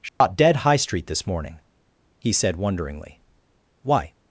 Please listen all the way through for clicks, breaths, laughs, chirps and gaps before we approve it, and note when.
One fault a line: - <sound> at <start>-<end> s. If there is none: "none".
- dropout at 0.1-0.2 s